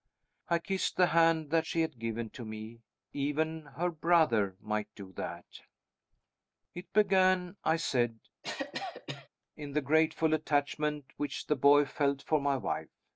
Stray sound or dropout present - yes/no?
yes